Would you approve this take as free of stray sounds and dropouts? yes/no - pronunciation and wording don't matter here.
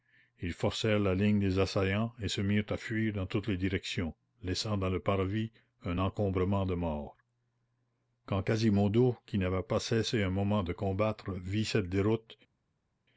yes